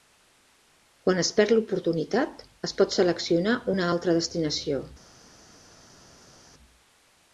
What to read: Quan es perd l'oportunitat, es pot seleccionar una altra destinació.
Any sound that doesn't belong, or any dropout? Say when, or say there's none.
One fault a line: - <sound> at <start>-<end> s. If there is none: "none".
none